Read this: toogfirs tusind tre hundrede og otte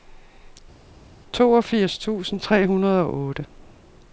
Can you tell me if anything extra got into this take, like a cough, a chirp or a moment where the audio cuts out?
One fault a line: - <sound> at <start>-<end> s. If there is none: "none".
none